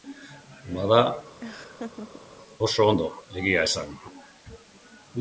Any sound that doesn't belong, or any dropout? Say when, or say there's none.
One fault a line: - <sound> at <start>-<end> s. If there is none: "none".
- laugh at 1.4-2.2 s